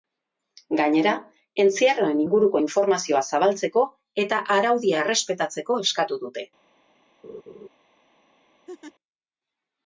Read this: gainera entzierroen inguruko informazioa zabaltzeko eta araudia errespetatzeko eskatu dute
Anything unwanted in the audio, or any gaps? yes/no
yes